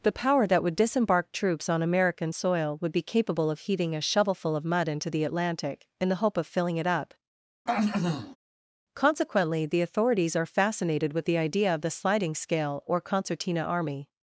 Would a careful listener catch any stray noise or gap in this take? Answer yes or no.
yes